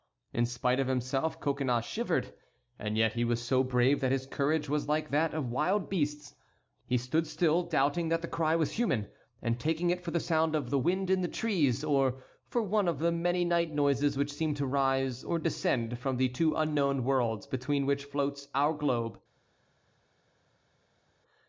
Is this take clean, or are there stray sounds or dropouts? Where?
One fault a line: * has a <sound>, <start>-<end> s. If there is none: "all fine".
all fine